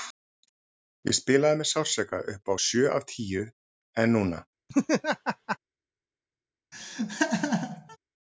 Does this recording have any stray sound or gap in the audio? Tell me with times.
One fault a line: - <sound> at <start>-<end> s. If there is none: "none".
- laugh at 4.7-5.6 s
- laugh at 6.7-8.0 s